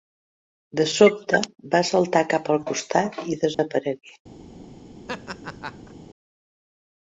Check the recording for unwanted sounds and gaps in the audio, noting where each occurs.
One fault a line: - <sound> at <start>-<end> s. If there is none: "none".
- dropout at 3.5-3.6 s
- laugh at 5.1-5.9 s